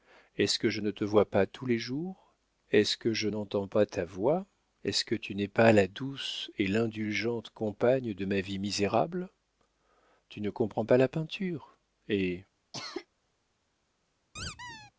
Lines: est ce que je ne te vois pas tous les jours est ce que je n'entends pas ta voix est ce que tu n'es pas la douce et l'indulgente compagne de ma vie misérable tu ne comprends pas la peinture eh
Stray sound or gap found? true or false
true